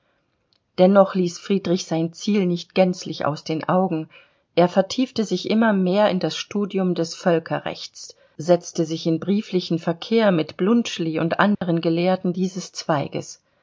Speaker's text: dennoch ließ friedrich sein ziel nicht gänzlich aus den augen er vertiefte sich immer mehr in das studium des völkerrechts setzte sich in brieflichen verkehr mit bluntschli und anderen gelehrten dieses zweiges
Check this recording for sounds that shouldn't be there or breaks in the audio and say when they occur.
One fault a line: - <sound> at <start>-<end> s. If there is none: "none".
- dropout at 11.5-11.6 s